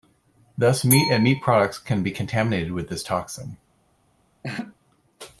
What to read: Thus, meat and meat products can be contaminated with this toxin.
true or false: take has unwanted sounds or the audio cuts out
true